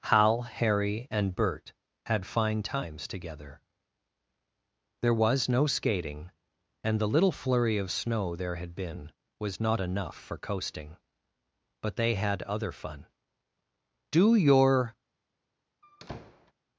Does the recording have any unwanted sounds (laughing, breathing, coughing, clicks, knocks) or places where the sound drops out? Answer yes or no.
yes